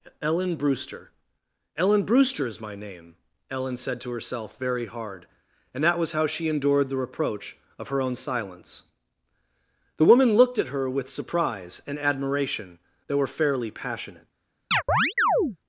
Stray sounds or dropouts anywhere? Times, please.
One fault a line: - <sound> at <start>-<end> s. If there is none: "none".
- chirp at 14.7-15.6 s